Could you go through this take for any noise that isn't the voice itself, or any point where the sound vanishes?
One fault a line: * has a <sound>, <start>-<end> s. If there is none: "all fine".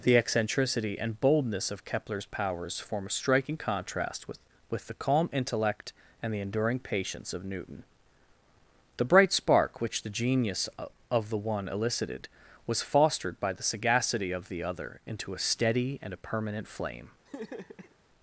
* has a laugh, 17.3-18.0 s